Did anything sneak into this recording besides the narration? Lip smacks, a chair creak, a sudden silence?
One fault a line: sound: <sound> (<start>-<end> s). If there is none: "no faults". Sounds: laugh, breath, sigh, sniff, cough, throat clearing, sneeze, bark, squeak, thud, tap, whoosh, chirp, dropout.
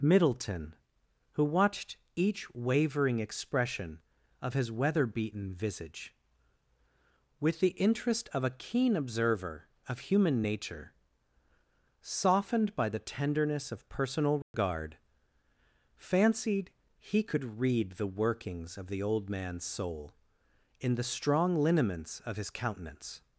sound: dropout (14.4-14.5 s)